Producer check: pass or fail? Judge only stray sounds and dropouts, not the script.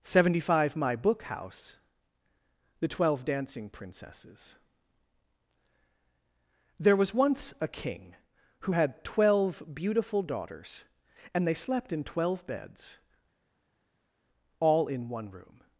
pass